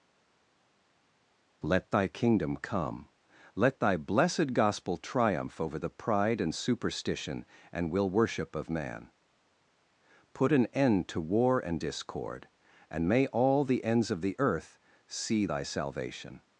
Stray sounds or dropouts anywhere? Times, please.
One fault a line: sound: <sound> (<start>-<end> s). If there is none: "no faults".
no faults